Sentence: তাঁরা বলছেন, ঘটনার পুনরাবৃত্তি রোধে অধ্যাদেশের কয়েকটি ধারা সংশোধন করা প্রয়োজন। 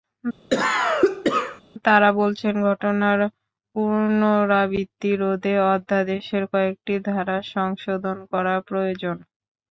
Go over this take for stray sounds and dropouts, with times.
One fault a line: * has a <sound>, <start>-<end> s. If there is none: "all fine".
* has a cough, 0.5-1.6 s